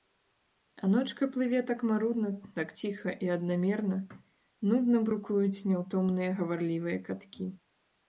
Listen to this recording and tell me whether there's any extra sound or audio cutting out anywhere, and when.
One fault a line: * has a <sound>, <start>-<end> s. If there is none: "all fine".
all fine